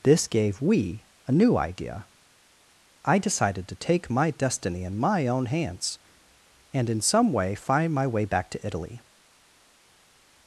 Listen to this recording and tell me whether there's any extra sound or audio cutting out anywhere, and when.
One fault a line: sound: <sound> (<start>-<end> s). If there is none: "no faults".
no faults